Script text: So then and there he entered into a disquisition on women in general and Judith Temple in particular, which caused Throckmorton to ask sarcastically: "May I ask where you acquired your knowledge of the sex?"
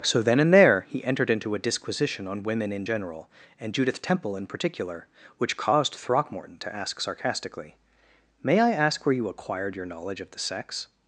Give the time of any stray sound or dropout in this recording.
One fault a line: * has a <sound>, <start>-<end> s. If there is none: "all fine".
all fine